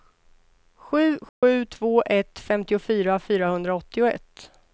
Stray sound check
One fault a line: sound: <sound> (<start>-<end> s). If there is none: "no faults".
sound: dropout (1.3-1.4 s)